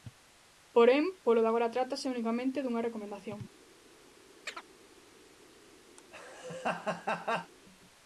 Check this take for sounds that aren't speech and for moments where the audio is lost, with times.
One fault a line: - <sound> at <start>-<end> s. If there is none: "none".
- chirp at 4.5-4.6 s
- laugh at 6.0-7.5 s